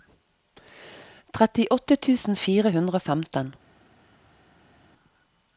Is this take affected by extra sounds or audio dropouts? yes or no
no